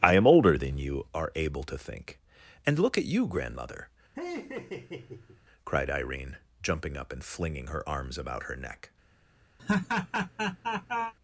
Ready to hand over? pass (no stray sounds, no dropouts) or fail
fail